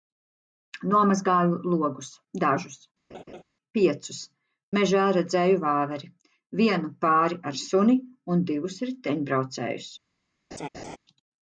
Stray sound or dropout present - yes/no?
yes